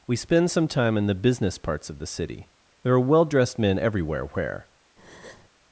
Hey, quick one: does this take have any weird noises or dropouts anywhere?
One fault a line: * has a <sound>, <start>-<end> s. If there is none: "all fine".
* has a breath, 5.0-5.5 s